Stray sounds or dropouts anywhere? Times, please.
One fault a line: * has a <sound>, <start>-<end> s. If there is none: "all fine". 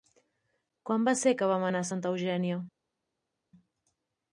all fine